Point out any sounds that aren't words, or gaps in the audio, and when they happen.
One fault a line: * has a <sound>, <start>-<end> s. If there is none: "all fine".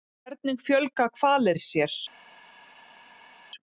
all fine